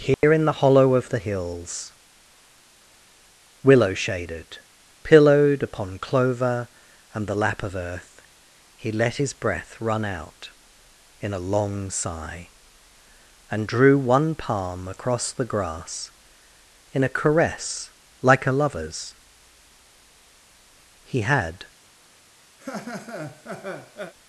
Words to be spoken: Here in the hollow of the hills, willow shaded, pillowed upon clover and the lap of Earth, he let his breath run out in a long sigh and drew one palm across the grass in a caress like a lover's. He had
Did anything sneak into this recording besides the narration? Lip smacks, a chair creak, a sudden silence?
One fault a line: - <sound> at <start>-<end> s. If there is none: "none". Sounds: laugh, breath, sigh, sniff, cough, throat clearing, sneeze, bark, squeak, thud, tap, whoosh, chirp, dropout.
- dropout at 0.1-0.2 s
- laugh at 22.6-24.1 s